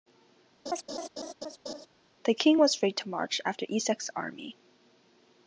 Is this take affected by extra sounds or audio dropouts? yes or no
yes